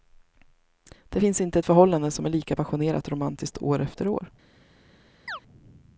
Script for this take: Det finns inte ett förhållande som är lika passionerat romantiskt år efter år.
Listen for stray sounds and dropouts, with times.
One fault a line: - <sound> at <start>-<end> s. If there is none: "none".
- chirp at 5.3-5.4 s